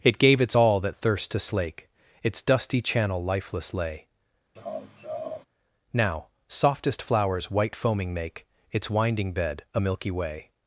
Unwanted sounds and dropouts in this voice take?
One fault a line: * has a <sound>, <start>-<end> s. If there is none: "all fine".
* has a laugh, 4.6-5.5 s